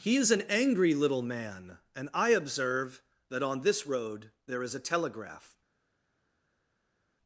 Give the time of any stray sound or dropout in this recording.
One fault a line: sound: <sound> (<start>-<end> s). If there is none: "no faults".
no faults